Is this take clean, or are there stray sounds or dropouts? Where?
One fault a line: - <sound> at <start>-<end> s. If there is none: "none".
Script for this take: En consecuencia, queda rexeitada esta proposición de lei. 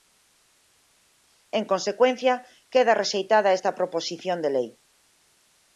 none